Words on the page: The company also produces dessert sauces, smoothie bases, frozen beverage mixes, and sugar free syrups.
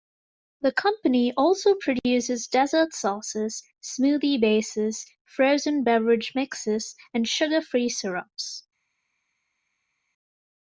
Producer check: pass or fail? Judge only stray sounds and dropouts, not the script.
pass